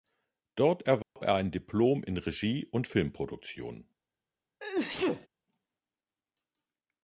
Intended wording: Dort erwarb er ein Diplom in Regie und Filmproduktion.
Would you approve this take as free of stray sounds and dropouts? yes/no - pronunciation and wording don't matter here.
no